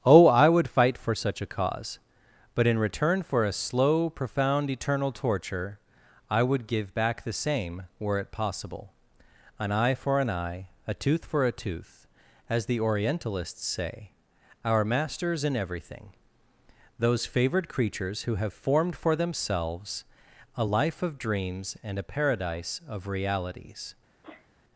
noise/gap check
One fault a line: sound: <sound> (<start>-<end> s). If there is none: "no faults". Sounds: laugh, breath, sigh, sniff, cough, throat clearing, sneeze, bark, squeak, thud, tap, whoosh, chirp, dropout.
sound: sneeze (24.2-24.5 s)